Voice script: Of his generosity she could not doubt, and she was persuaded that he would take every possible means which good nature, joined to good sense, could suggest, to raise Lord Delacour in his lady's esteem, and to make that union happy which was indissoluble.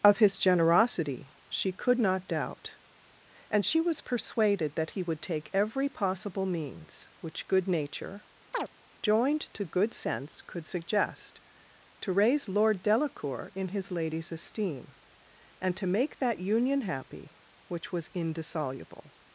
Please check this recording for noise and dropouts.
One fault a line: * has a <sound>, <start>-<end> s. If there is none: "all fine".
* has a chirp, 8.5-8.7 s